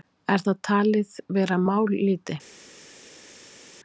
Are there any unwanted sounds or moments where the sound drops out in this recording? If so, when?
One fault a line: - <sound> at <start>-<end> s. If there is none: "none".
none